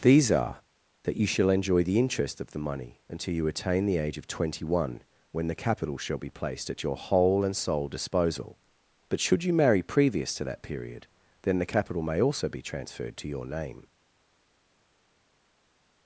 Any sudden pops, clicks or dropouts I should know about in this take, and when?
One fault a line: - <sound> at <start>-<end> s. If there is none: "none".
none